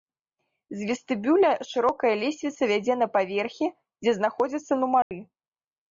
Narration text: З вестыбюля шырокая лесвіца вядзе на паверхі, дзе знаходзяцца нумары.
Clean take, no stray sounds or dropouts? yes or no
no